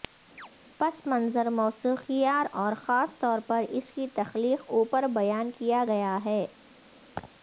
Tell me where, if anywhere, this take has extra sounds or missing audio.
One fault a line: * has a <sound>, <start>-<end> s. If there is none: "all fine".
* has a chirp, 0.4-0.5 s
* has a laugh, 7.1-7.3 s